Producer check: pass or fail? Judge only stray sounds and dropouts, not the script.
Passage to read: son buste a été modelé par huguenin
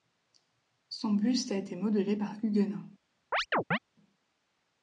fail